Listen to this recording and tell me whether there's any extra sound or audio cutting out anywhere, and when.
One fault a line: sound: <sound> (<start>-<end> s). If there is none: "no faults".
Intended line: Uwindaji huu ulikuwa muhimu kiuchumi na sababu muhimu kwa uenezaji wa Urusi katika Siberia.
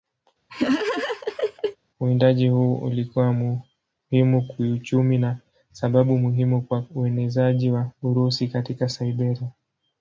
sound: laugh (0.5-1.8 s)